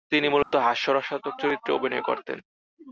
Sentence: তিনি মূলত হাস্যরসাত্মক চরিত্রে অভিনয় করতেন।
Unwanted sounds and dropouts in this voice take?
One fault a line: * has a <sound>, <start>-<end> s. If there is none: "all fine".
* has a dropout, 0.4-0.5 s